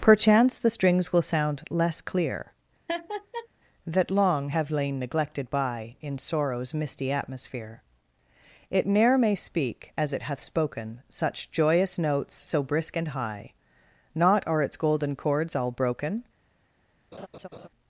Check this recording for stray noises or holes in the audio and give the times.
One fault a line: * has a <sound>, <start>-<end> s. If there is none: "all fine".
* has a laugh, 2.9-3.5 s
* has a laugh, 17.1-17.7 s